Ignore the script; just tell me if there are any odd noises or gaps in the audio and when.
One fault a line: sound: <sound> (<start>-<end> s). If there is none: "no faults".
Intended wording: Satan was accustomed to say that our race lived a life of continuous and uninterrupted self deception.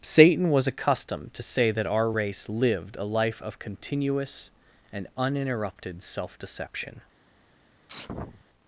sound: sneeze (7.9-8.4 s)